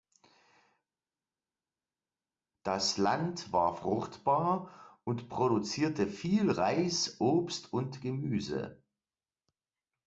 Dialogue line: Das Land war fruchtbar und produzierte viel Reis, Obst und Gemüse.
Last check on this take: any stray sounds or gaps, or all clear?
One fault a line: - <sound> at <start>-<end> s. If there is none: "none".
none